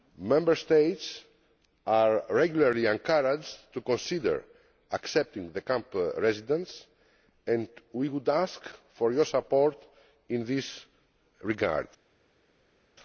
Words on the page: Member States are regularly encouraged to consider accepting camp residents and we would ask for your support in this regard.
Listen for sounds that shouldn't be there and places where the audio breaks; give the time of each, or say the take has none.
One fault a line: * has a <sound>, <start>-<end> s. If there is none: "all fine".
all fine